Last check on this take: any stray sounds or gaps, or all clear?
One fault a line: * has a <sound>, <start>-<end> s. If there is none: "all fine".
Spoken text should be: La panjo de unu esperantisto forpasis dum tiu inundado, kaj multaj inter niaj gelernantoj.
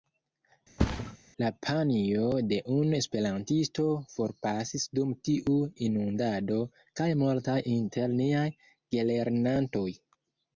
* has a thud, 0.8-1.2 s